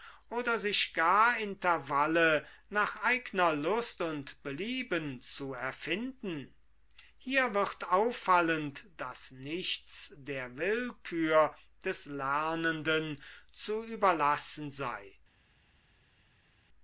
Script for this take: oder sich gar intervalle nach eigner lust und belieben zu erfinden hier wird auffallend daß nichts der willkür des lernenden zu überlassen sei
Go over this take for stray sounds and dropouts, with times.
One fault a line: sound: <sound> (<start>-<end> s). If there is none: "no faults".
no faults